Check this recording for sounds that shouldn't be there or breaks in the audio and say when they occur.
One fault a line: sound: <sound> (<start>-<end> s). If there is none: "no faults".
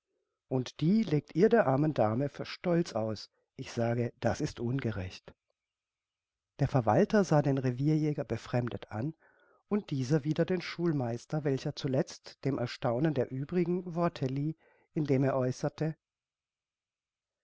no faults